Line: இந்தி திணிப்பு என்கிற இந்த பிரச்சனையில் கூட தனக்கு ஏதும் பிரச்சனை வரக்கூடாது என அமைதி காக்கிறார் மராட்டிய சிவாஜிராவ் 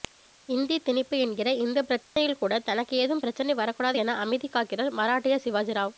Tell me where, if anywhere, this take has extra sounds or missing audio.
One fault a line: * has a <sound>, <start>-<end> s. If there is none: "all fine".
* has a dropout, 2.0-2.2 s